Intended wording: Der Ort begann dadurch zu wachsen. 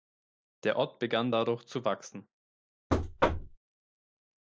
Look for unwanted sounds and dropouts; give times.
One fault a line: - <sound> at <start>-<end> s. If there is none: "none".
- thud at 2.9-3.6 s